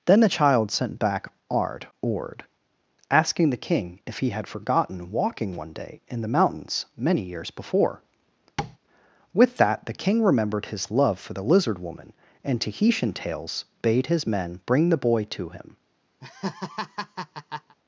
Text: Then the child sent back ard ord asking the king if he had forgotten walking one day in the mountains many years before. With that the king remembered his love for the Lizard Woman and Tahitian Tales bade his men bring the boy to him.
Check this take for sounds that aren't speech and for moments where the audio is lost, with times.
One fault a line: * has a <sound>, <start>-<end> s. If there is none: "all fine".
* has a tap, 8.6-8.8 s
* has a laugh, 16.2-17.7 s